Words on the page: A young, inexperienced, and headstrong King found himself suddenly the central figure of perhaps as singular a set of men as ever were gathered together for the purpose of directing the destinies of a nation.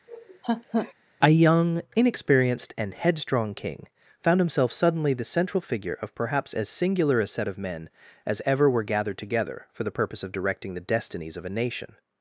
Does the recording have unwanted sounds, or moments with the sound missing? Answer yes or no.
yes